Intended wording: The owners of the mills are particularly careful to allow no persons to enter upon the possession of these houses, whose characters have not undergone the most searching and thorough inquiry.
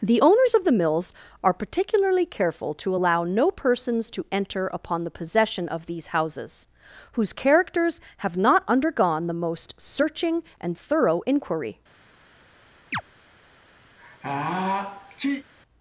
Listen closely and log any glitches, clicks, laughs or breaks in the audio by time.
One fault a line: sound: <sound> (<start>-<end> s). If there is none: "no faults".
sound: chirp (12.9-13.0 s)
sound: sneeze (13.9-15.4 s)